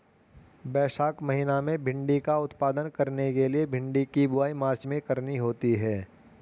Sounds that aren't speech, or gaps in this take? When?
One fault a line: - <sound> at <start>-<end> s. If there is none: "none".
none